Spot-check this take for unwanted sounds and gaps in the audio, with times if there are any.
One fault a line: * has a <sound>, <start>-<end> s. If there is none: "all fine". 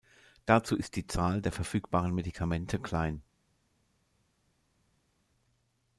all fine